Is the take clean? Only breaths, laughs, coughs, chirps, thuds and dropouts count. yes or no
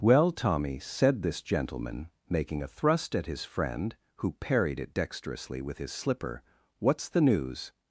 yes